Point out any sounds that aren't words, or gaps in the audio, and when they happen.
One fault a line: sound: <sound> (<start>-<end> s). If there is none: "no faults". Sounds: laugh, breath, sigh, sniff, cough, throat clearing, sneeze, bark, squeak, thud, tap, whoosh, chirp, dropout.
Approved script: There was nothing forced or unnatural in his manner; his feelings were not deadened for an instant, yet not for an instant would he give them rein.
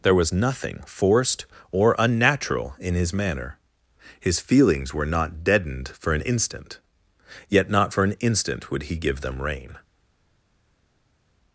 no faults